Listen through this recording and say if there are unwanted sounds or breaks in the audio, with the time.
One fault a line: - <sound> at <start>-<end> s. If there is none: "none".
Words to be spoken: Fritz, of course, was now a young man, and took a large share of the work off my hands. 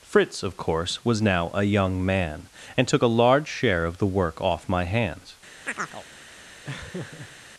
- chirp at 5.7-6.1 s
- laugh at 6.6-7.4 s